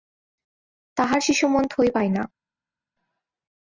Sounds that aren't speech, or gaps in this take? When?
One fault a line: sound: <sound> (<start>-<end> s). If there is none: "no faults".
no faults